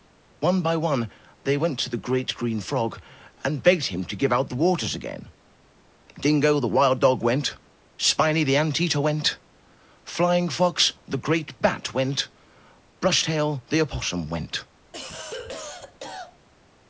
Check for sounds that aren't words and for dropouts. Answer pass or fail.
fail